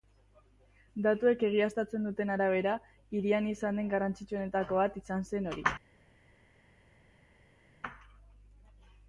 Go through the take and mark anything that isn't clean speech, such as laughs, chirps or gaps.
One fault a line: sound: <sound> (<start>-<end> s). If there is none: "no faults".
no faults